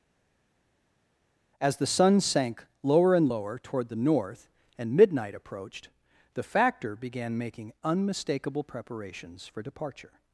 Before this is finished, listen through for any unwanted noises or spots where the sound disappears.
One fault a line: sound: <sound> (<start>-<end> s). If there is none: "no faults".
no faults